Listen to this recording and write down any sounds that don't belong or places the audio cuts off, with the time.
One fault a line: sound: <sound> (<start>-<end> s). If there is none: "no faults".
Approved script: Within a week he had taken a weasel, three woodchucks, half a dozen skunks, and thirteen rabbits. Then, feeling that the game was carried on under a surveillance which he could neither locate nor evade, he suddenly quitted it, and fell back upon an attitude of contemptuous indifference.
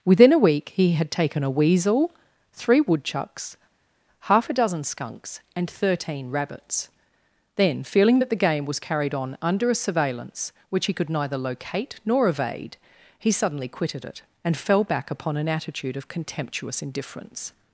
no faults